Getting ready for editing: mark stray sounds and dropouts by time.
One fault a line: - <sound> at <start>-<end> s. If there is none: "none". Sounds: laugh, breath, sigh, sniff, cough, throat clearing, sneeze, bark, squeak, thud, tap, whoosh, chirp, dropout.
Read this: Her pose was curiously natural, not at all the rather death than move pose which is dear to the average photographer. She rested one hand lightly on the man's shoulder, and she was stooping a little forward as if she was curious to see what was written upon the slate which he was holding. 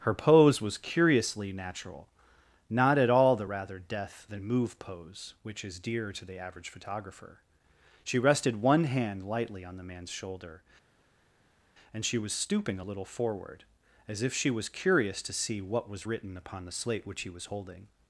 none